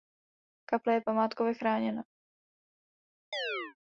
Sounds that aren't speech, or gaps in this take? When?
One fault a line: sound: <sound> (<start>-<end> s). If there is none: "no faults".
sound: chirp (3.3-3.8 s)